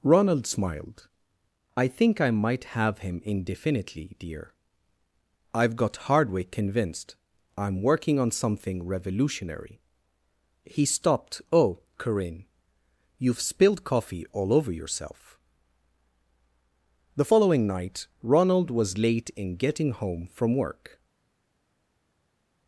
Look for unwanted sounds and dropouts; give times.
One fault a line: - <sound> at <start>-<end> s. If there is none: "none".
none